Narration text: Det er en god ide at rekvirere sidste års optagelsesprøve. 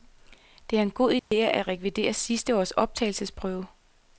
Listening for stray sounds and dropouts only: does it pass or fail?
fail